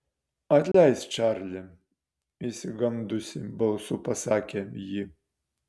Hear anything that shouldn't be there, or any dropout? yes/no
yes